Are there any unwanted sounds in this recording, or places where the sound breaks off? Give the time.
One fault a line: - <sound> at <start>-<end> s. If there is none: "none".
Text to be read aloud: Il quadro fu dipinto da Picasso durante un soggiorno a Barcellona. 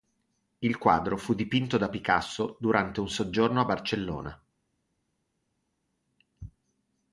none